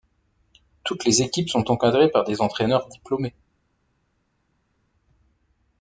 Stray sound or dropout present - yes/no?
no